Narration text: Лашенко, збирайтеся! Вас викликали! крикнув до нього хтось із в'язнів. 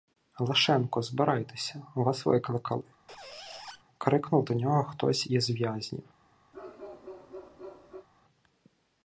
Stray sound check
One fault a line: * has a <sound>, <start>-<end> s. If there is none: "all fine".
* has a squeak, 3.1-3.8 s
* has a bark, 6.5-8.1 s